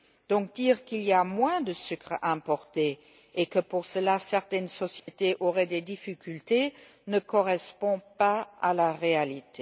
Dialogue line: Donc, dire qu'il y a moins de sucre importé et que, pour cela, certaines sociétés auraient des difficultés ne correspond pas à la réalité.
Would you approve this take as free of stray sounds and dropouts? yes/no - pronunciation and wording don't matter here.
no